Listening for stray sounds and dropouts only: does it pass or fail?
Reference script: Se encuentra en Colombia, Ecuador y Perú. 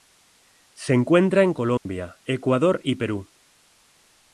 fail